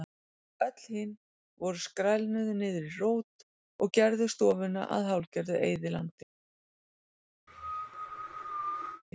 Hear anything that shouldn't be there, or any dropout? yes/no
yes